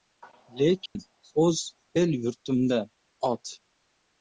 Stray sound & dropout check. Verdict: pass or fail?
fail